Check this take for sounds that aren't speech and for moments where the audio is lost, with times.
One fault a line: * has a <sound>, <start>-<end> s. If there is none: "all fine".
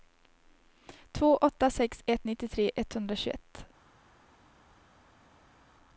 all fine